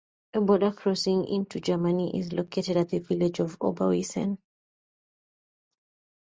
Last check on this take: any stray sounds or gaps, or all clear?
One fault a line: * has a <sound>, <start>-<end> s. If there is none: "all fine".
all fine